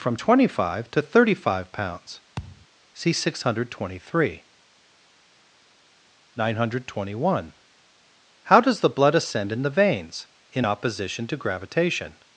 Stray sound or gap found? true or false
true